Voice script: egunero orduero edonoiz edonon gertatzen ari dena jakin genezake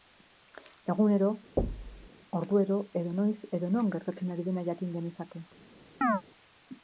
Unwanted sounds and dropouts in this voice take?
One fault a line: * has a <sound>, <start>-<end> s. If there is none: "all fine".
* has a thud, 1.6-2.1 s
* has a chirp, 6.0-6.2 s